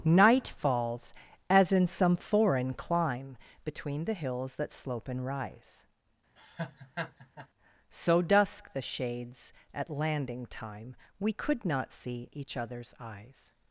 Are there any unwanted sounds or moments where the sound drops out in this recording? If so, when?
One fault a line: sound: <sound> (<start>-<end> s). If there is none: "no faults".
sound: laugh (6.4-7.5 s)